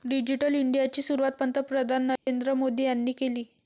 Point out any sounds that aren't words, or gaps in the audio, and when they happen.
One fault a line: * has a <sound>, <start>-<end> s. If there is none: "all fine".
* has a dropout, 2.2-2.3 s